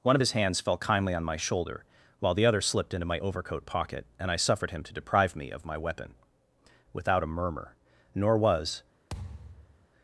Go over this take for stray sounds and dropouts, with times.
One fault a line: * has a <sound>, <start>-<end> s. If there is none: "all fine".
* has a thud, 9.1-9.9 s